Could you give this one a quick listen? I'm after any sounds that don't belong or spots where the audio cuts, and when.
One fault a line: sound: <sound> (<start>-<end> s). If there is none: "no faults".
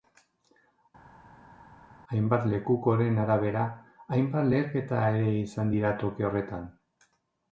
no faults